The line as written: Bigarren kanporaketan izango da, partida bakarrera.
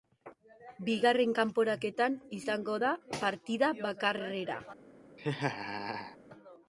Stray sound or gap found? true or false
true